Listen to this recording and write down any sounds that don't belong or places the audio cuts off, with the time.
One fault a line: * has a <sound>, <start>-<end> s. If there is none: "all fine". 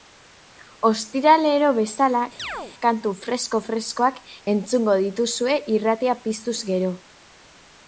* has a chirp, 2.4-2.7 s